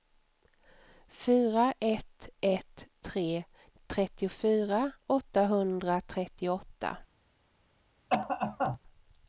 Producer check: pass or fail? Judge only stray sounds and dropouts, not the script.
fail